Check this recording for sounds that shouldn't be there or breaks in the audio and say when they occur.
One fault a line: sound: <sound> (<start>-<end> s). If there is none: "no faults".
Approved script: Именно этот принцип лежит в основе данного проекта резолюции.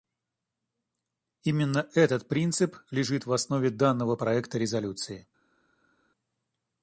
no faults